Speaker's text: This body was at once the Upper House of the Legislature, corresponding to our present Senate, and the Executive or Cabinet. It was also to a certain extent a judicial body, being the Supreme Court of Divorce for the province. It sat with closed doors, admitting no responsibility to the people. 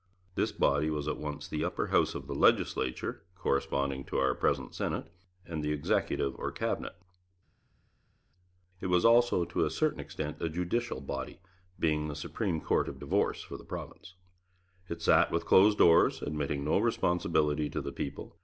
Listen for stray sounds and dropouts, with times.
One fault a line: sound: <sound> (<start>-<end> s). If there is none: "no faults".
no faults